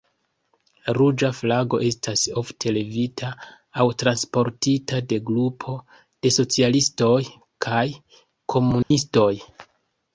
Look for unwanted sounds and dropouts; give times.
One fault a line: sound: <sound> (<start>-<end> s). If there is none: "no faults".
sound: dropout (8.8-8.9 s)